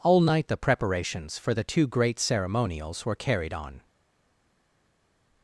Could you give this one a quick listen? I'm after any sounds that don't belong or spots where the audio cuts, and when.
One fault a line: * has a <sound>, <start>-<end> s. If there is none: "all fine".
all fine